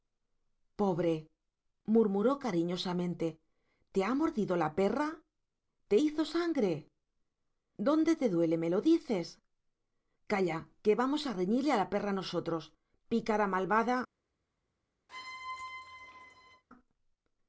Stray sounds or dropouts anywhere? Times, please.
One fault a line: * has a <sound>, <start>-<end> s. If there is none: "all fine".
* has a squeak, 15.1-16.6 s